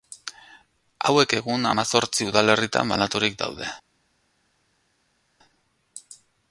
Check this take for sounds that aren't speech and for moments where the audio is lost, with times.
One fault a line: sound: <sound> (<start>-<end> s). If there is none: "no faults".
no faults